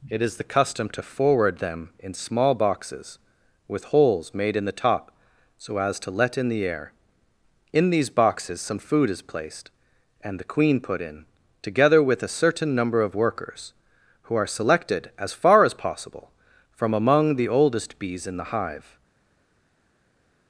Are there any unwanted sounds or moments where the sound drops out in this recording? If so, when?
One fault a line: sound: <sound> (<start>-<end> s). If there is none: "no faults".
no faults